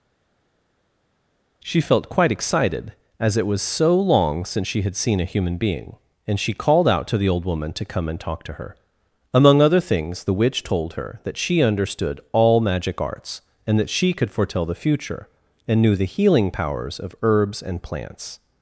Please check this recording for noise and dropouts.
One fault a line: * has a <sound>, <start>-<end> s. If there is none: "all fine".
all fine